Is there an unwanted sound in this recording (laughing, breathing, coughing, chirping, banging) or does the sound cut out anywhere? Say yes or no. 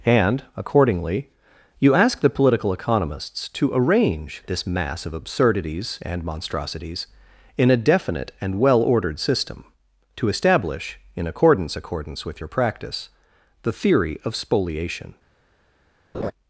yes